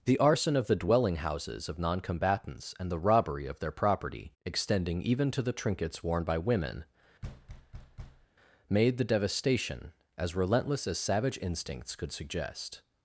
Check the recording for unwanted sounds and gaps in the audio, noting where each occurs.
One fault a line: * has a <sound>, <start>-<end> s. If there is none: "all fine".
* has a thud, 7.2-8.3 s